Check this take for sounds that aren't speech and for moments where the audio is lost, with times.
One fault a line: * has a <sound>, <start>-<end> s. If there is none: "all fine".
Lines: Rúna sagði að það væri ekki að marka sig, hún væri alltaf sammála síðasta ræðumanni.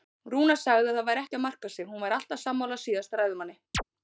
* has a chirp, 3.7-3.8 s